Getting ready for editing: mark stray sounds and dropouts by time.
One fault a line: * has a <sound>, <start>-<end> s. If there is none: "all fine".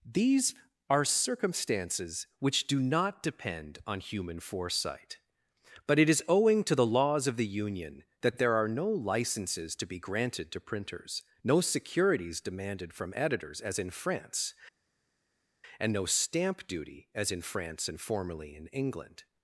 all fine